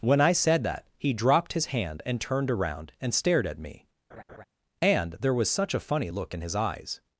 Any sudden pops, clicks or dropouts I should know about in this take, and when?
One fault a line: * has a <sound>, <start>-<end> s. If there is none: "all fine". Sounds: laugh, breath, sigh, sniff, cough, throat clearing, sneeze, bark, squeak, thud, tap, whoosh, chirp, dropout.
* has a laugh, 4.1-4.4 s